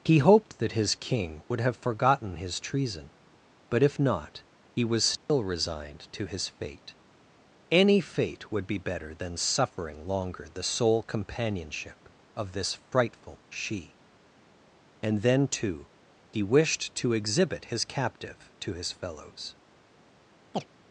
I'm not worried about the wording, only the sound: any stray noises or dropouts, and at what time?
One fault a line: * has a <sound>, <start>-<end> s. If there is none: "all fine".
* has a dropout, 5.2-5.3 s
* has a chirp, 20.5-20.7 s